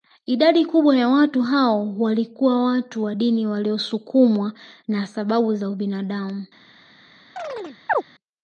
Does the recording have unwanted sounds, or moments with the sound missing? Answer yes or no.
yes